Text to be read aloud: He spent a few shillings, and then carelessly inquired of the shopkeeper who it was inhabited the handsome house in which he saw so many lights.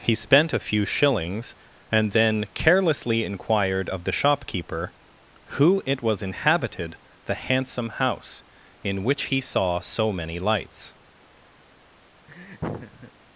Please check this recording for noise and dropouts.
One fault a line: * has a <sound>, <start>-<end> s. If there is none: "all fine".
* has a laugh, 12.3-13.1 s